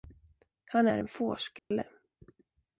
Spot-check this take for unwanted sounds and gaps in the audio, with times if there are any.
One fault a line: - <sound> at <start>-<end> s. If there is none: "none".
- dropout at 1.6-1.7 s